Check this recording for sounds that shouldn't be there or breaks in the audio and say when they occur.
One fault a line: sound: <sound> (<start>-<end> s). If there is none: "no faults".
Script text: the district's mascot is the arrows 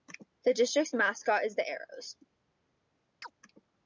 sound: chirp (3.2-3.3 s)